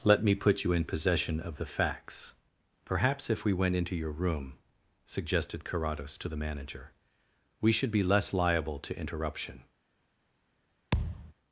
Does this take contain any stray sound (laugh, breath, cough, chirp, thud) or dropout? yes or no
yes